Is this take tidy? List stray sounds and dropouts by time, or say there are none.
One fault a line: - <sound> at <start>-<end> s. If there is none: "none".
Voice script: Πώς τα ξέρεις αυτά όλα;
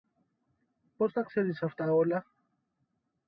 none